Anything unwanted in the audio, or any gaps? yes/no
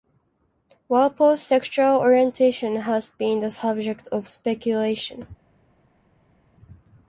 no